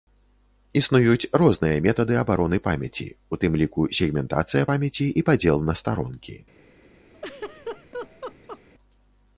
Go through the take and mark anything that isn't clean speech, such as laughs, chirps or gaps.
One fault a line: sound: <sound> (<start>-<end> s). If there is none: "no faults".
sound: laugh (7.1-8.6 s)